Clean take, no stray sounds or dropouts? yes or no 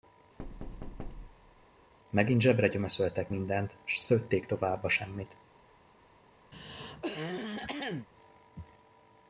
no